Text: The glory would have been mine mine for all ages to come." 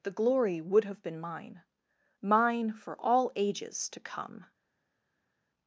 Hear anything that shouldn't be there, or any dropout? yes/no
no